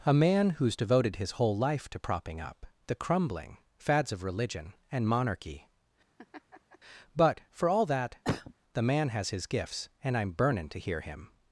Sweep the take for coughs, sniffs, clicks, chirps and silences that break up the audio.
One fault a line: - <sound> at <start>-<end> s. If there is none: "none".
- laugh at 6.2-6.8 s
- cough at 8.2-8.5 s